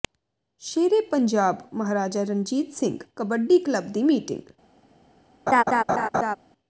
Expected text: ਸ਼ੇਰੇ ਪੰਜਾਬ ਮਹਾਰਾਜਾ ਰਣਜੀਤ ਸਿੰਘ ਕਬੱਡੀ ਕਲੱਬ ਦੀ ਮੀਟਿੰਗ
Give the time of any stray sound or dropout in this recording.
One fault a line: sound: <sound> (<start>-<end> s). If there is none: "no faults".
sound: laugh (5.5-6.4 s)